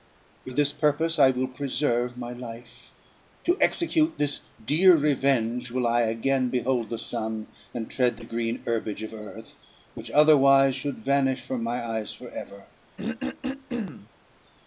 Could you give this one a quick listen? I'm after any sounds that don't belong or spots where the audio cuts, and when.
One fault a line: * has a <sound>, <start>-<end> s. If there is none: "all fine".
* has a throat clearing, 13.0-14.1 s